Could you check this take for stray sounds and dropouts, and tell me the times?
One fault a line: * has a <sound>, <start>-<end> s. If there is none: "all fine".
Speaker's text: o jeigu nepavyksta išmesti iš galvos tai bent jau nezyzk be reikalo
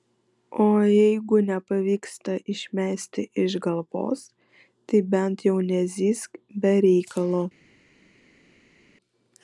all fine